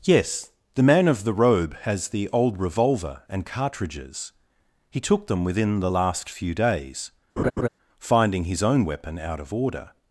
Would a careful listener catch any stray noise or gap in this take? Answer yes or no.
yes